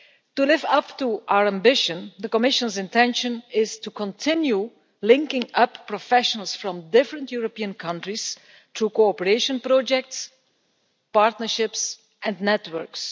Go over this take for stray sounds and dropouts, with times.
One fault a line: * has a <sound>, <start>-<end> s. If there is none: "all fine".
all fine